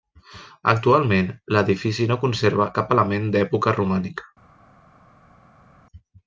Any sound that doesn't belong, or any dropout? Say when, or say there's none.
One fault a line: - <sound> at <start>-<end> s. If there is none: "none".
none